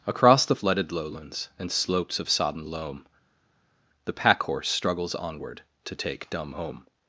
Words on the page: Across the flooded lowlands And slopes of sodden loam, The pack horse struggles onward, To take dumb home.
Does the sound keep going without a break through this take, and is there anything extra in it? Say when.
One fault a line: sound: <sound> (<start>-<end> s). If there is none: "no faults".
no faults